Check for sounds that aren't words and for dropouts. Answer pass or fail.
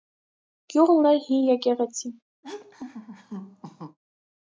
fail